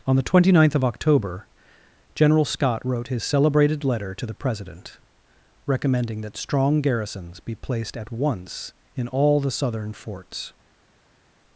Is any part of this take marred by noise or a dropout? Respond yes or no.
no